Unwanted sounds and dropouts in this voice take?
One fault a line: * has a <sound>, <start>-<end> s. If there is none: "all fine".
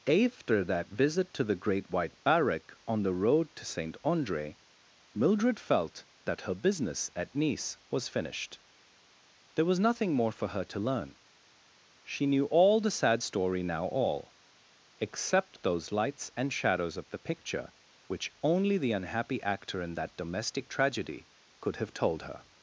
all fine